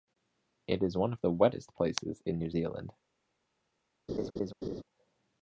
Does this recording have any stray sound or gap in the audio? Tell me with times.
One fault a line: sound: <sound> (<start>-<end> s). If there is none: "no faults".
sound: laugh (4.1-4.8 s)